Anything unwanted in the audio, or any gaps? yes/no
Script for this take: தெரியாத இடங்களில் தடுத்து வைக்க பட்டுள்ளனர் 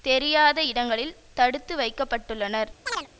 yes